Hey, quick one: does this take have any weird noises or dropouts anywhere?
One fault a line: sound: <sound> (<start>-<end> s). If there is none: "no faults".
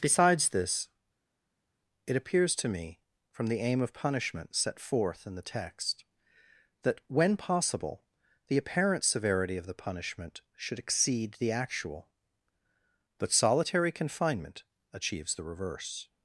no faults